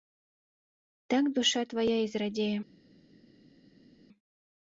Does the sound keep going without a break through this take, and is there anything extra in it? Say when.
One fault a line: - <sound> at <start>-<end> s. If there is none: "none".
none